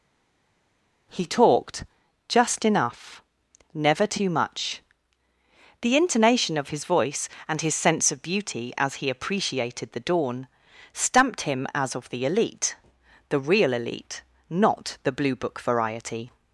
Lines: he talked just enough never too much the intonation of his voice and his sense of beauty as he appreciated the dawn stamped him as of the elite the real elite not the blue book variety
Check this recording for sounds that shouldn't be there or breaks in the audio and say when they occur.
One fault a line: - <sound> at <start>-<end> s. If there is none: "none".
none